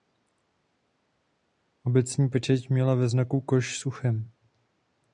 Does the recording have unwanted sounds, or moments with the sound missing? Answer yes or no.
no